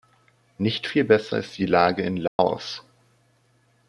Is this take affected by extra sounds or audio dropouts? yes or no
yes